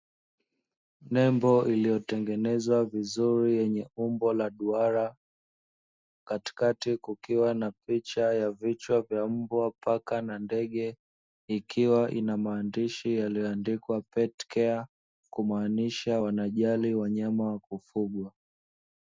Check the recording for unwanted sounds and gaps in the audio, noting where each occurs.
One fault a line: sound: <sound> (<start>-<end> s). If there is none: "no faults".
no faults